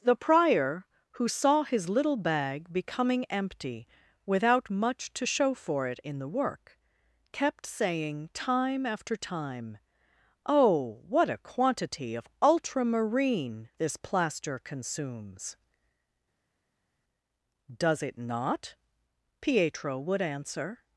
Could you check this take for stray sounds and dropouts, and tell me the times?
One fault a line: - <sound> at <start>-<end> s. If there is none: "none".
none